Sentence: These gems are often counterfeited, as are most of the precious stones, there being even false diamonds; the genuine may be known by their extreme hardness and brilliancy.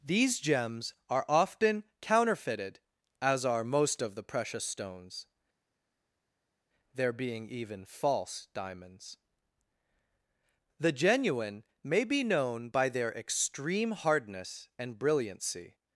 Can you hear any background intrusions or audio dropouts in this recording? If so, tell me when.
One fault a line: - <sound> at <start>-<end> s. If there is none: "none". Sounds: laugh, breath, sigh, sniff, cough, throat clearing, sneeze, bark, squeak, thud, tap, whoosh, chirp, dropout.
none